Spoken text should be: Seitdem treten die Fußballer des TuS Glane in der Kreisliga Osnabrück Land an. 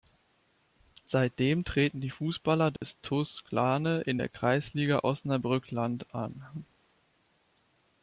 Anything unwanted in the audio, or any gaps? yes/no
yes